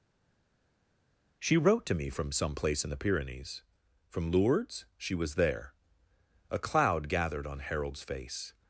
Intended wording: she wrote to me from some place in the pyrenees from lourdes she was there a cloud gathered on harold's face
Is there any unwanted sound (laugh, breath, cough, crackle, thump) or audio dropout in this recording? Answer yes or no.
no